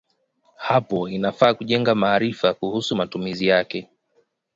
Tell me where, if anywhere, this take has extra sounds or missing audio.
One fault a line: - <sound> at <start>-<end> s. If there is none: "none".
none